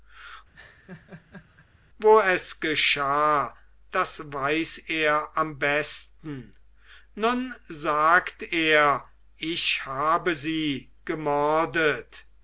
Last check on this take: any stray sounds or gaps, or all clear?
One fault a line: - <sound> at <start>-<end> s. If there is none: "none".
- laugh at 0.5-1.7 s